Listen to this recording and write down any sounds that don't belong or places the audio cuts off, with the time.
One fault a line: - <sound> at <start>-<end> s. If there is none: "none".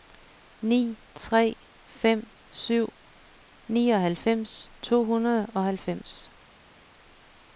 none